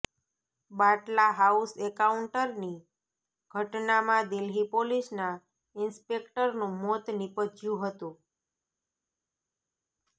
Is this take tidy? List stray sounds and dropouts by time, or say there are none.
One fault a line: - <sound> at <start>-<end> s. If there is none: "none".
none